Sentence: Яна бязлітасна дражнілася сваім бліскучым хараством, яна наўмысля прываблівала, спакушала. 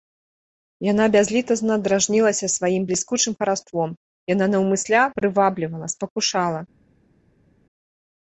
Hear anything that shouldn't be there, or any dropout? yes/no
no